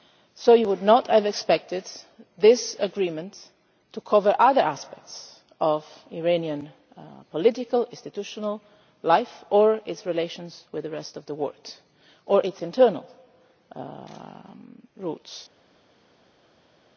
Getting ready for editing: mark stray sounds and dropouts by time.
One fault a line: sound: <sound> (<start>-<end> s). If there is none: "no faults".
no faults